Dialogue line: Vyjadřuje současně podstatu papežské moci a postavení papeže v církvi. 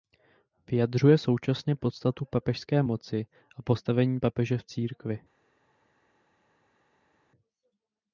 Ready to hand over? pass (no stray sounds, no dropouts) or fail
pass